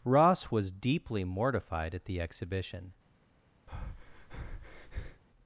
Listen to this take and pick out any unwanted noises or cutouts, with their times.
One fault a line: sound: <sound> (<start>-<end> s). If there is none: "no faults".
sound: breath (3.7-5.2 s)